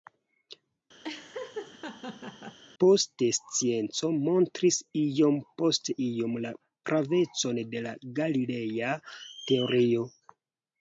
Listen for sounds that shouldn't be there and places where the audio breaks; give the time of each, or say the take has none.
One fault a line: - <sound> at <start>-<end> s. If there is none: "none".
- laugh at 1.0-2.6 s